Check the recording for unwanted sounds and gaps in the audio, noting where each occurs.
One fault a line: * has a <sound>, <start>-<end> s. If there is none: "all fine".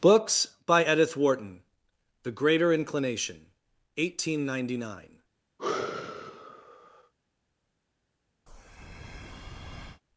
* has a sigh, 5.6-7.1 s
* has a breath, 8.5-10.0 s